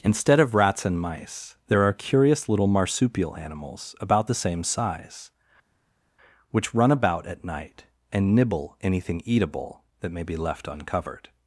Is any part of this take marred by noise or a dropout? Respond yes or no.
no